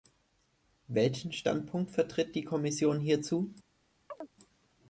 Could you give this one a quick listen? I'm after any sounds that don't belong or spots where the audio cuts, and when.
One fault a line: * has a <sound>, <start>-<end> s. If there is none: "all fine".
* has a chirp, 4.1-4.3 s